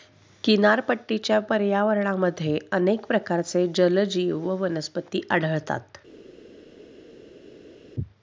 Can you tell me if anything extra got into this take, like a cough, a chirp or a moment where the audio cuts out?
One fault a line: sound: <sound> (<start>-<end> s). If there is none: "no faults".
no faults